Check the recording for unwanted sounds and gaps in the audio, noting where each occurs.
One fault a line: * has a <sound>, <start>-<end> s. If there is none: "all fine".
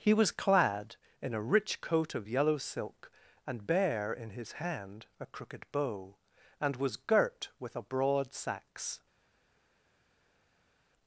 all fine